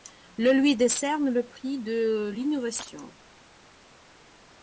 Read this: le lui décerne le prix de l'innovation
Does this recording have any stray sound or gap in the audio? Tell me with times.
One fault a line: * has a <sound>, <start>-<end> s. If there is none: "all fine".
all fine